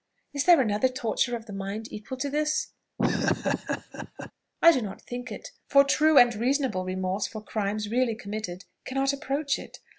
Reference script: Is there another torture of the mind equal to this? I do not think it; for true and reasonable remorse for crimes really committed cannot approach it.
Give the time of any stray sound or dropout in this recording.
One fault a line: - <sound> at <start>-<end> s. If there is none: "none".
- laugh at 3.0-4.3 s